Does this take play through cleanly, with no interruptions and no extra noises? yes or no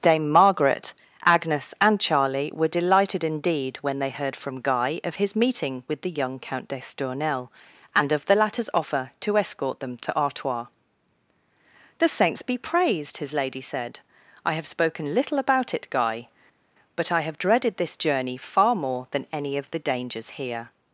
yes